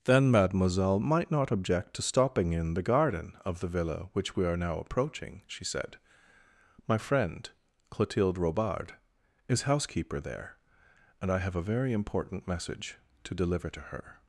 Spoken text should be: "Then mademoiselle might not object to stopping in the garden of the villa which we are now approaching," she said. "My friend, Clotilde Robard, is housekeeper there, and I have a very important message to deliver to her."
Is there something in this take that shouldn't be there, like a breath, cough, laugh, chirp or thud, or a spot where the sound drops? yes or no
no